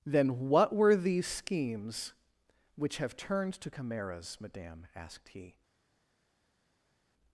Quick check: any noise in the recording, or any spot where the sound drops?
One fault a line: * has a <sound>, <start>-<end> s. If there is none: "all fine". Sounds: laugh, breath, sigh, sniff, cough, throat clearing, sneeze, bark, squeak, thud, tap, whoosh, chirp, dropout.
all fine